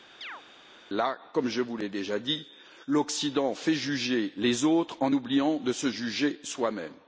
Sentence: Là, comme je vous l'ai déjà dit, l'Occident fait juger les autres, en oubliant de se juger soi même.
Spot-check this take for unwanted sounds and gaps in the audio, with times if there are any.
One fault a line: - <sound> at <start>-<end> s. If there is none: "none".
- chirp at 0.2-0.4 s